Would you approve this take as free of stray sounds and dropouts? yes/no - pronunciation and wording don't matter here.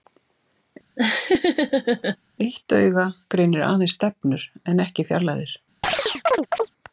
no